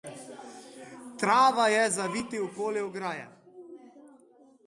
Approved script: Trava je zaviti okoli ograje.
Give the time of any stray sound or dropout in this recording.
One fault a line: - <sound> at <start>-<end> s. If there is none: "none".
none